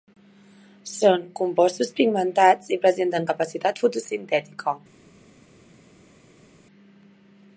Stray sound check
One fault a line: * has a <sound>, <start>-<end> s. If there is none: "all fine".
all fine